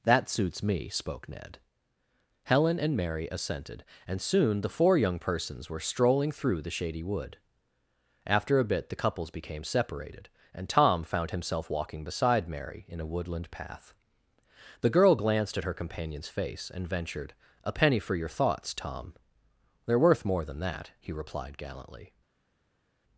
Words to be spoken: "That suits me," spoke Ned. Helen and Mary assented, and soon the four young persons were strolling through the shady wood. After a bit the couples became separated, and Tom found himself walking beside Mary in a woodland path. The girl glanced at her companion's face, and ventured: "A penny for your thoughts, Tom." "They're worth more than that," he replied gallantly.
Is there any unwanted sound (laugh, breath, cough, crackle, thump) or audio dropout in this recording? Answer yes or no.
no